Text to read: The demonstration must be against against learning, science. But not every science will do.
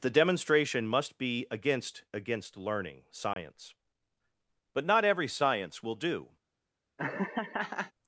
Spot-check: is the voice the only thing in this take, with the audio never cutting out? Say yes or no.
no